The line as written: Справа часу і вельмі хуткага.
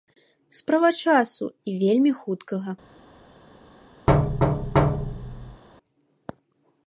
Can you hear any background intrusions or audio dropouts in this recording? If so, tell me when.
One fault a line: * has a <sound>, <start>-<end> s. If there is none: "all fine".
* has a thud, 4.1-5.6 s